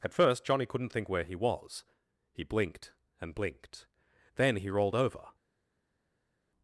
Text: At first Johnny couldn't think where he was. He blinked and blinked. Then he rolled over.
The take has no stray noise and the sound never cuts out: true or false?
true